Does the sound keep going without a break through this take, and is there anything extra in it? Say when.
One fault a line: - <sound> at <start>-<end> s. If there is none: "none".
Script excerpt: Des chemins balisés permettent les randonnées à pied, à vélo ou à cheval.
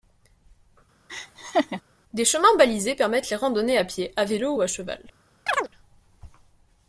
- laugh at 1.1-1.8 s
- chirp at 5.5-5.7 s